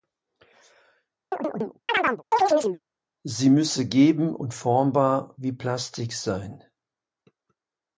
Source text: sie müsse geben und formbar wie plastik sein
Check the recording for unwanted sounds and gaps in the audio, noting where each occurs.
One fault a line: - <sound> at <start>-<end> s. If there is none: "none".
- chirp at 1.3-2.8 s